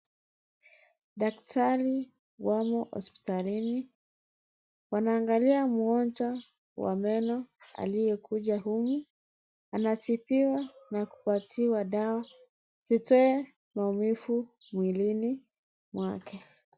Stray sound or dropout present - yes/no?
no